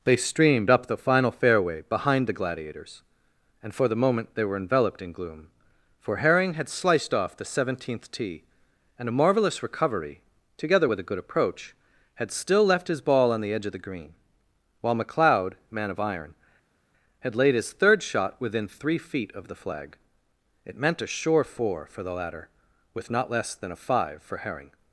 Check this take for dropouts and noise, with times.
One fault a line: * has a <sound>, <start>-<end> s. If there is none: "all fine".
all fine